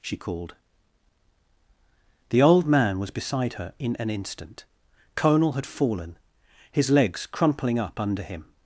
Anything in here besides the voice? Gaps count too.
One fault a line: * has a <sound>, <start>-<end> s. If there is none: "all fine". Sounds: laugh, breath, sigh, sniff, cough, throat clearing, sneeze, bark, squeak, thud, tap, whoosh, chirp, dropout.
all fine